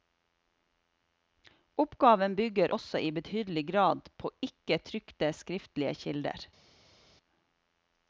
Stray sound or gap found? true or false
false